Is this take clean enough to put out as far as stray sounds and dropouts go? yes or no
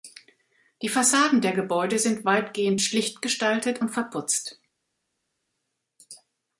yes